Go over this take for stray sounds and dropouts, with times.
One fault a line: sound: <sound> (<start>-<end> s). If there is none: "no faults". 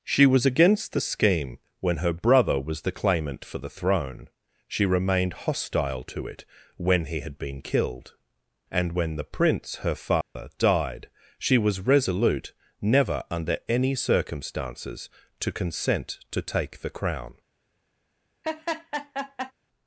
sound: dropout (10.2-10.4 s)
sound: laugh (18.4-19.5 s)